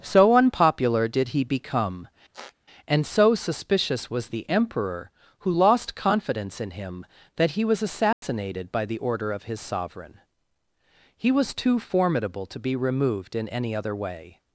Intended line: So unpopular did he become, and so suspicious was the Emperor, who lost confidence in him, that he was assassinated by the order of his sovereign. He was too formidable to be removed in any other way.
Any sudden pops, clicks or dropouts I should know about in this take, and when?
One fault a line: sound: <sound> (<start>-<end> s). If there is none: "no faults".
sound: squeak (2.3-2.5 s)
sound: dropout (8.1-8.2 s)